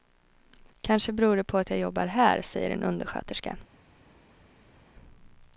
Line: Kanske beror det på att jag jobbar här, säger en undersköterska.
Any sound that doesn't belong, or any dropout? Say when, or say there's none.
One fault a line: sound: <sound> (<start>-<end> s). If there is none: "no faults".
no faults